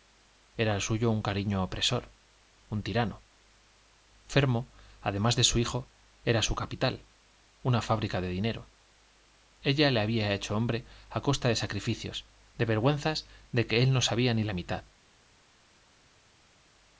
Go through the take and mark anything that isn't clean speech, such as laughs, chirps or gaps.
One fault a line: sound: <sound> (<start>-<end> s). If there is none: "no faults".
no faults